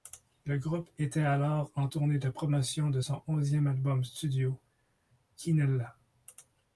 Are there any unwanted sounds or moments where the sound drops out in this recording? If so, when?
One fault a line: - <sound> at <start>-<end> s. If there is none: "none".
none